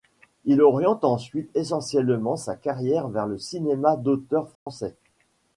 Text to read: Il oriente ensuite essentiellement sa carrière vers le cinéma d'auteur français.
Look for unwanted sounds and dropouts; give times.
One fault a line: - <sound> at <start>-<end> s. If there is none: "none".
- dropout at 4.5-4.7 s